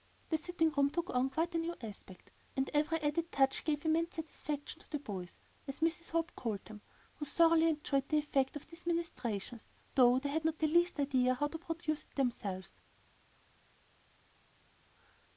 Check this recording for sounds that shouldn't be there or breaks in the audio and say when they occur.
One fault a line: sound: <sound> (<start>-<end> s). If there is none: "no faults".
no faults